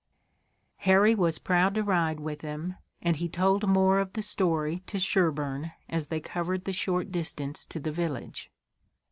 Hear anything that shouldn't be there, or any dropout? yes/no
no